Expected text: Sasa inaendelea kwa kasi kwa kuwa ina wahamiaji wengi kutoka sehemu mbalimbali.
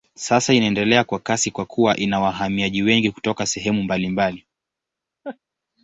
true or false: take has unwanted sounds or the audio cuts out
true